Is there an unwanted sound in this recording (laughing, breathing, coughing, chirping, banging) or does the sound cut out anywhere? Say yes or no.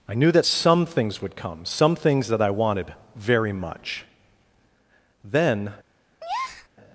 yes